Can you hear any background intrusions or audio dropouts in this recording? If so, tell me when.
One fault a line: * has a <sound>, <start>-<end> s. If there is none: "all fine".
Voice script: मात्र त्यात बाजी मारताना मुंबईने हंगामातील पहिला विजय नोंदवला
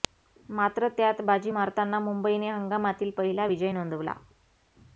all fine